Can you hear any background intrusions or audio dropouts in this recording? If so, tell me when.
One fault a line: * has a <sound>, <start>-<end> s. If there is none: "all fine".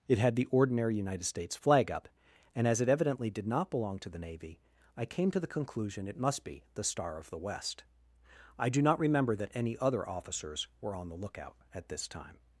all fine